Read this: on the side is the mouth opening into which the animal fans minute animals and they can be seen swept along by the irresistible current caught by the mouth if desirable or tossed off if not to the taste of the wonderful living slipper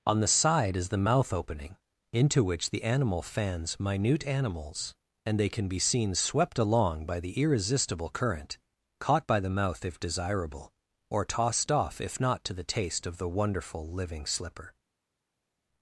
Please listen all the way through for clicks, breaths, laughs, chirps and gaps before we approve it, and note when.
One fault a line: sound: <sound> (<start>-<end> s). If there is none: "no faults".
no faults